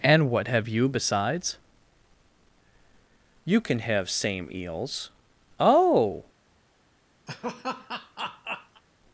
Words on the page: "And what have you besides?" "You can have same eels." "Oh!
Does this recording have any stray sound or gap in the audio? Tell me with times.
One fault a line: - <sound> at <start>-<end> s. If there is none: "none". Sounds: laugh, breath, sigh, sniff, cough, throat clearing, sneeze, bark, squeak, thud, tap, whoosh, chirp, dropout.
- laugh at 7.3-8.8 s